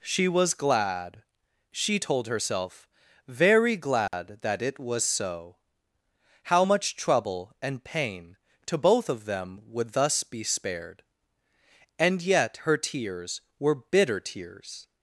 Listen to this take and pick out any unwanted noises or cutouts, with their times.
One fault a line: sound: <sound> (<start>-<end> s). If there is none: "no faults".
sound: dropout (4.1-4.1 s)